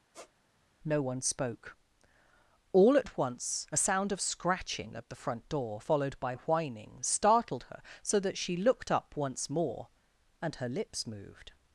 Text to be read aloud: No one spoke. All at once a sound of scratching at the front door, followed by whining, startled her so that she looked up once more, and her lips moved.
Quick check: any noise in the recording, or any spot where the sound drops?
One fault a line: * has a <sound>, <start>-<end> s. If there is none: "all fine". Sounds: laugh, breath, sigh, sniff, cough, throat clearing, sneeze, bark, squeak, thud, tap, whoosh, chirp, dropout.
* has a squeak, 0.1-0.3 s